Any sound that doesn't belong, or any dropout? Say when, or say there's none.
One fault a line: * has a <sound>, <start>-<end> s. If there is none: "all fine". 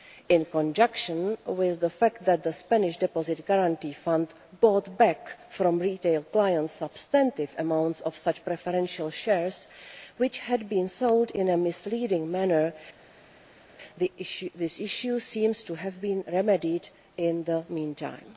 all fine